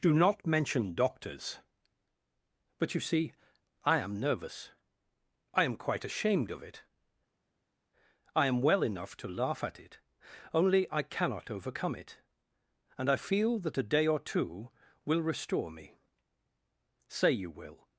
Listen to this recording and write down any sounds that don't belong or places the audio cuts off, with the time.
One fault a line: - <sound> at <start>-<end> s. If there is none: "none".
none